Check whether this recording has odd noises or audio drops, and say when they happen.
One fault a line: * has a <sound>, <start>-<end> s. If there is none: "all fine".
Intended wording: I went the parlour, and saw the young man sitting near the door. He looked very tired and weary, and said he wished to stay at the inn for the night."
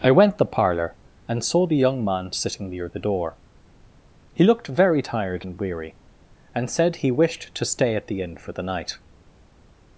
all fine